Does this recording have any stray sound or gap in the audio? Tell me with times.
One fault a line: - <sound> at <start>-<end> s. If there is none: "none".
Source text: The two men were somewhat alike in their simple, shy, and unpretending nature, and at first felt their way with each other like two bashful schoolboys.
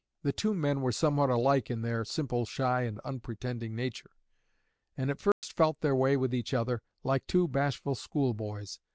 - dropout at 5.3-5.4 s